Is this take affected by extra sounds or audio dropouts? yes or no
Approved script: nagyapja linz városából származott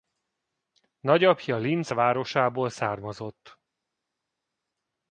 no